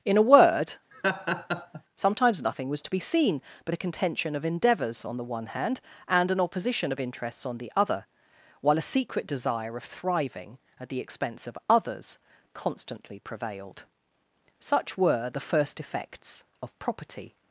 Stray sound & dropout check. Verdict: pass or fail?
fail